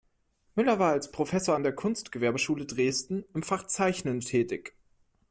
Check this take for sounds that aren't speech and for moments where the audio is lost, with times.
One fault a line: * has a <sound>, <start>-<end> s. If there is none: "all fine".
all fine